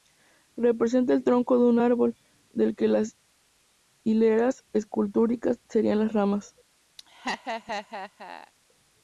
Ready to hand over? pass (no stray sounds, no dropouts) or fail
fail